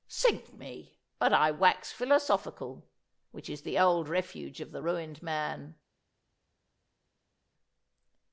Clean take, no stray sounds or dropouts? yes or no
yes